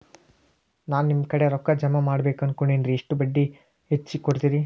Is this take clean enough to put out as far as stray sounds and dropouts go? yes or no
yes